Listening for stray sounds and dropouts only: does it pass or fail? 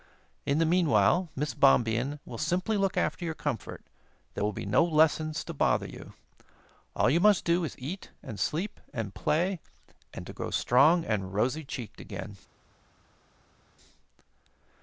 pass